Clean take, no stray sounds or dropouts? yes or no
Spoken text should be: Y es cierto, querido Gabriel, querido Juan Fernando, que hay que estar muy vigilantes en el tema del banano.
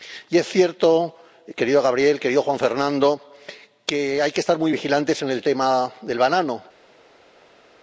yes